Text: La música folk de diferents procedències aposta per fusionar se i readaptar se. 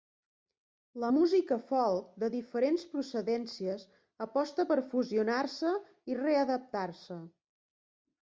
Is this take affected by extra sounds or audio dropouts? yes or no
no